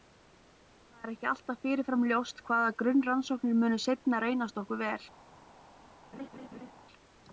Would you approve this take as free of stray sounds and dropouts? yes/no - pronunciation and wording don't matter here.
no